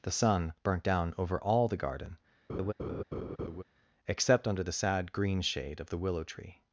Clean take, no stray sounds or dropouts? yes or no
no